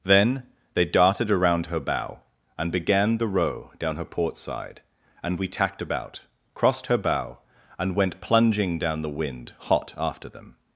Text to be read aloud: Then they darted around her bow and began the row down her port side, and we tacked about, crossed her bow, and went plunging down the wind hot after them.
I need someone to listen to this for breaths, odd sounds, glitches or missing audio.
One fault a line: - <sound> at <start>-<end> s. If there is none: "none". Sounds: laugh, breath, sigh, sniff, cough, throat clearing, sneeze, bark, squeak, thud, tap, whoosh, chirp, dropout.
none